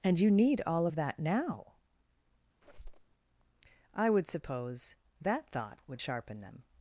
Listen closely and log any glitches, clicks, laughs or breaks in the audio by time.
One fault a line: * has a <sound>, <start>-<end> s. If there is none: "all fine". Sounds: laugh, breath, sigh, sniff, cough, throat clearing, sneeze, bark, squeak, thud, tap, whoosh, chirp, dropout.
* has a squeak, 2.6-3.1 s